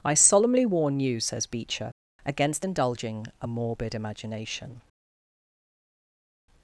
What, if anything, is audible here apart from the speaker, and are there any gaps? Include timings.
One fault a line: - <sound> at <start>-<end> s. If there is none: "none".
none